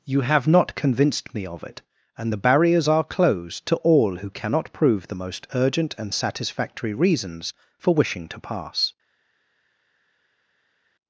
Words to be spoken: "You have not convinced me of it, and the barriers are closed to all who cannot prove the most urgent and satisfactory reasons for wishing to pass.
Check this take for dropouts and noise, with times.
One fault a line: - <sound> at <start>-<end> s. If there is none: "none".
none